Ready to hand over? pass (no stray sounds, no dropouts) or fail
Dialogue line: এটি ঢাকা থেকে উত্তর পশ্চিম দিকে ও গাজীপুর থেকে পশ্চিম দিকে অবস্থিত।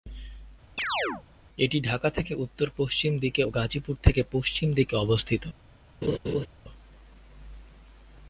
fail